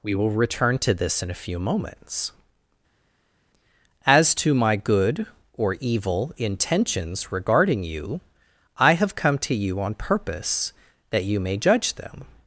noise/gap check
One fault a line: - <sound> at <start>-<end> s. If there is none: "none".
none